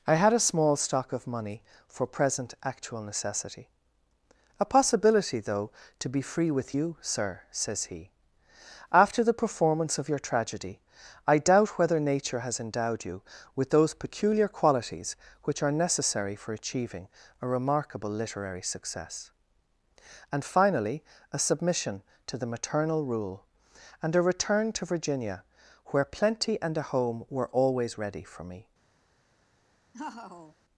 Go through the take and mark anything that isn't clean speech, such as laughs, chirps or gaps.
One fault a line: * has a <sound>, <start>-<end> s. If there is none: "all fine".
* has a laugh, 29.9-30.6 s